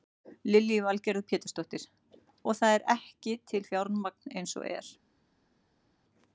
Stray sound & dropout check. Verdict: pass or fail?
pass